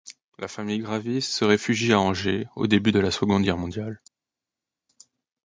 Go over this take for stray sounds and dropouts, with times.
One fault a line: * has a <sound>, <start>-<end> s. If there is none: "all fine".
all fine